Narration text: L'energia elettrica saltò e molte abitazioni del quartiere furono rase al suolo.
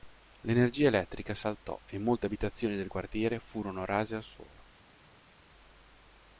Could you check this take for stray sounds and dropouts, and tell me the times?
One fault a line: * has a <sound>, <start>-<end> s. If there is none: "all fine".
all fine